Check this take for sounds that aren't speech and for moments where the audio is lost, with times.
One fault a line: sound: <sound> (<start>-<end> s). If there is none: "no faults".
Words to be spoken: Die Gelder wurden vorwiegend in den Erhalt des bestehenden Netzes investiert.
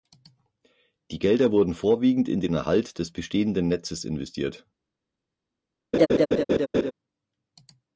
sound: laugh (5.9-6.9 s)